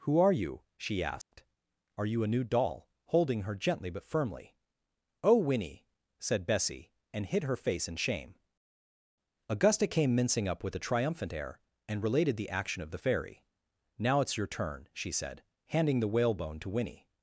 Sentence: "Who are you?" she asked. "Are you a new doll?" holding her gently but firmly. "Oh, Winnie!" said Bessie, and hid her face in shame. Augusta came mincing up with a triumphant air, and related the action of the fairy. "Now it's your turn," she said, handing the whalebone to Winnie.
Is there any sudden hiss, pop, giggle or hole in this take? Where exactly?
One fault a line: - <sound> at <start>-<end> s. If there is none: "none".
- dropout at 1.2-1.3 s